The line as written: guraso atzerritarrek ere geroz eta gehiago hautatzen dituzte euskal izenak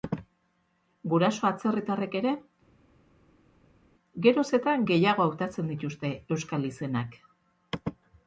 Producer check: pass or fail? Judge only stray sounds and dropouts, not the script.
pass